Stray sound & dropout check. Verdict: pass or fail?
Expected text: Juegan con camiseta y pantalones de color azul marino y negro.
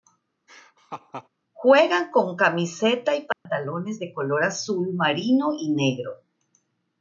fail